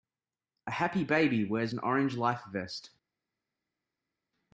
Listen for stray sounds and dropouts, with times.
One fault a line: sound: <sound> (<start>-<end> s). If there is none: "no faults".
no faults